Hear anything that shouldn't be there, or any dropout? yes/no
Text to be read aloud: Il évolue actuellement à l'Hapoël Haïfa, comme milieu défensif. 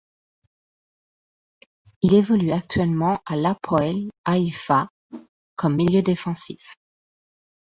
yes